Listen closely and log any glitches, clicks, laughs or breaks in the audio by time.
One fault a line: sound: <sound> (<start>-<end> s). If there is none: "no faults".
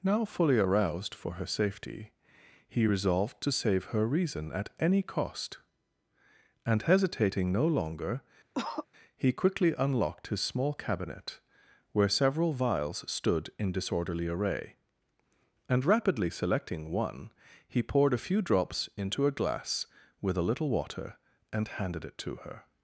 sound: cough (8.5-8.9 s)